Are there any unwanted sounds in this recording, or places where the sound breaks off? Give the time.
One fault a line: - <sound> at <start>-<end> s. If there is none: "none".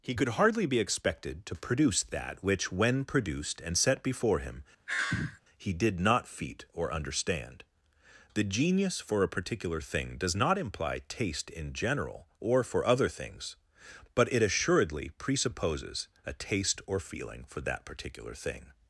- sigh at 4.9-5.4 s